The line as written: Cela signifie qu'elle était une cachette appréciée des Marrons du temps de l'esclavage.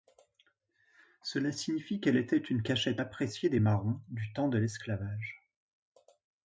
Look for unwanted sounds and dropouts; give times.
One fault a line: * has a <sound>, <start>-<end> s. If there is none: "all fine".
all fine